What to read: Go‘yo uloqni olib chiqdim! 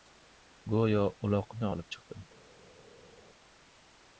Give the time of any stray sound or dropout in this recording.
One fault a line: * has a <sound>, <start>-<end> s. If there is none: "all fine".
all fine